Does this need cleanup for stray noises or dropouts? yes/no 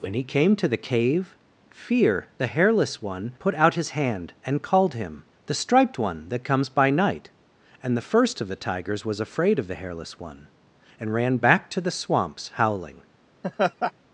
yes